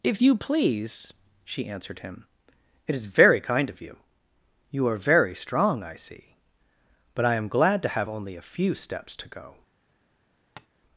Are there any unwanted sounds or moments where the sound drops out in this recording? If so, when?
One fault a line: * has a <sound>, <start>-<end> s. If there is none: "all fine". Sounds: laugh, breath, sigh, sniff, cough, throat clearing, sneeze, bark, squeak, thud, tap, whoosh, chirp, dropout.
* has a tap, 10.6-10.7 s